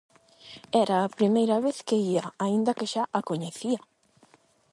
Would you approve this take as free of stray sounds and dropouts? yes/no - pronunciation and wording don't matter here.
yes